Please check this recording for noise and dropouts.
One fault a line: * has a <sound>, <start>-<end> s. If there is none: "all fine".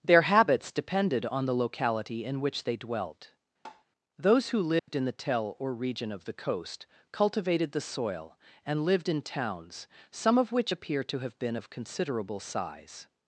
* has a tap, 3.6-3.8 s
* has a dropout, 4.8-4.9 s